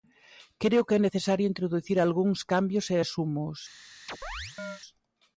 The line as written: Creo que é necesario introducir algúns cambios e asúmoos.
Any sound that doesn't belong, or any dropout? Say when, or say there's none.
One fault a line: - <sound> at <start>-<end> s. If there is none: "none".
- chirp at 4.1-4.8 s